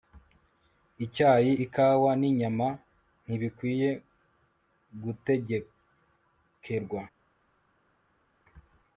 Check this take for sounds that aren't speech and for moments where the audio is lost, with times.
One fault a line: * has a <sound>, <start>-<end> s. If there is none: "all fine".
all fine